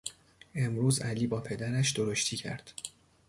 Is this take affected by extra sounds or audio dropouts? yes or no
no